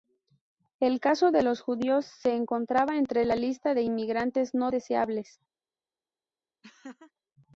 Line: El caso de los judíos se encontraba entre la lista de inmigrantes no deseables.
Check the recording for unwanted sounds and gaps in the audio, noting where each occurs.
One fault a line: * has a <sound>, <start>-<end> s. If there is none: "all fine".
* has a laugh, 6.6-7.1 s